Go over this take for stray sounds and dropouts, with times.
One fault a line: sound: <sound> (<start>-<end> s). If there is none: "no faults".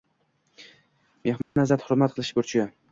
sound: dropout (1.4-1.6 s)